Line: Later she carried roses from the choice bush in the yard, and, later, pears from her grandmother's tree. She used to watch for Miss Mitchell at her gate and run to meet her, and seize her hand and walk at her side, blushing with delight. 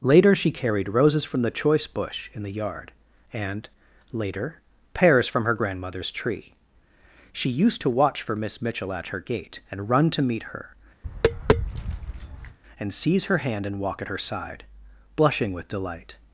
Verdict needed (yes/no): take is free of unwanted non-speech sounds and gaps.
no